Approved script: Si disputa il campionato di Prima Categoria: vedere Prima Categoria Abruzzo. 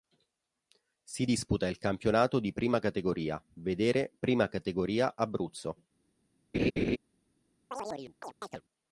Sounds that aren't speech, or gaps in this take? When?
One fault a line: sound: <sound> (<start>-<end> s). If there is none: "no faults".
sound: laugh (6.5-7.0 s)
sound: chirp (7.7-8.6 s)